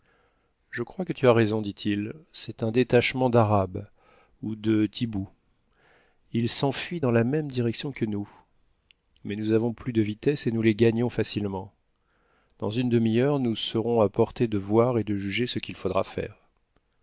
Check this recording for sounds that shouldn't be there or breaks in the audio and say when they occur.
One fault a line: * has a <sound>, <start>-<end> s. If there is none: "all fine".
all fine